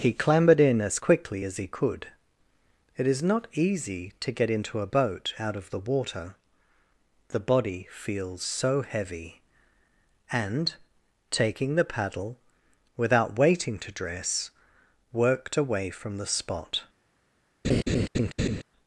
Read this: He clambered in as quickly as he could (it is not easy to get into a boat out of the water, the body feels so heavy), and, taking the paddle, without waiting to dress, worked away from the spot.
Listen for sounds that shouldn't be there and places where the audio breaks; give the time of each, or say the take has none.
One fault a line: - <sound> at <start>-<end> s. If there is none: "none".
- laugh at 17.6-18.6 s